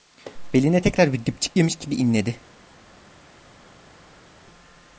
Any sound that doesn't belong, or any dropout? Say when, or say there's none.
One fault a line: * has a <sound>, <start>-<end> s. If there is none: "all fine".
all fine